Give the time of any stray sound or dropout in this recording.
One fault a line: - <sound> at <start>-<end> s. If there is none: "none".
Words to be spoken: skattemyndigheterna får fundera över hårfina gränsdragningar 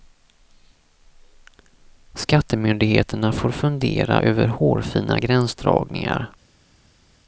none